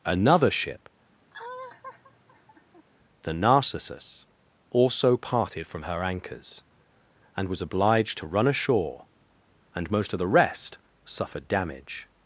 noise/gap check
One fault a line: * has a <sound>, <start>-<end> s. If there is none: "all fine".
* has a laugh, 1.3-2.8 s